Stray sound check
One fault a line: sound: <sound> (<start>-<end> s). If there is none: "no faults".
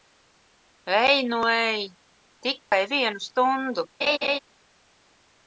sound: dropout (2.6-2.7 s)
sound: laugh (4.0-4.4 s)